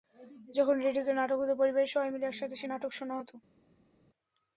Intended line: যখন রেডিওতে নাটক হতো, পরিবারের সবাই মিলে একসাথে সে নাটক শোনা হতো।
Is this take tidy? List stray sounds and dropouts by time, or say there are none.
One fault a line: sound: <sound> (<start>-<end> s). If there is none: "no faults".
no faults